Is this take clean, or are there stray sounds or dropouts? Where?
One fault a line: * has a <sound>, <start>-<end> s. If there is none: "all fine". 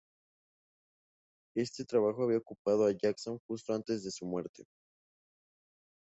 all fine